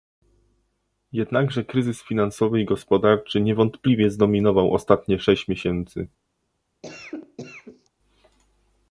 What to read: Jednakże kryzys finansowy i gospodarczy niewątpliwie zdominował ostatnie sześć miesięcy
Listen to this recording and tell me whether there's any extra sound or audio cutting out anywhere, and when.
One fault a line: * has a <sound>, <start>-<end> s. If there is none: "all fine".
* has a cough, 6.8-7.9 s